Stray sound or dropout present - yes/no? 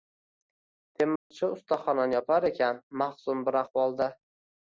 yes